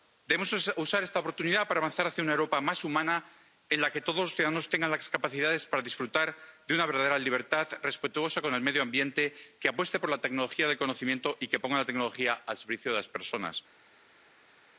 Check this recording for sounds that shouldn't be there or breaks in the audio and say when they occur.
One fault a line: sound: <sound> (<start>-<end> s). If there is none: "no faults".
no faults